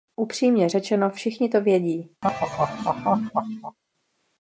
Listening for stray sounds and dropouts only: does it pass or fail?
fail